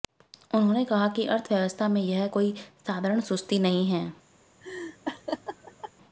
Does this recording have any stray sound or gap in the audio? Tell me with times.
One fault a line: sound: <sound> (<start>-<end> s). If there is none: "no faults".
sound: laugh (4.6-5.9 s)